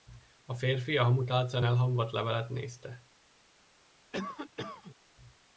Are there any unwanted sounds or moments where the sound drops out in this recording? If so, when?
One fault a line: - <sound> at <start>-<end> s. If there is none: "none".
- cough at 4.1-5.0 s